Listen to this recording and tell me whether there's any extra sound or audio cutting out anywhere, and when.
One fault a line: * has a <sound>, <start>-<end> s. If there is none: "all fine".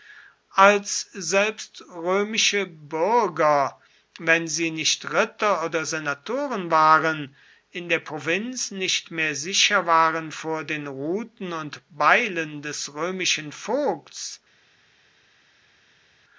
all fine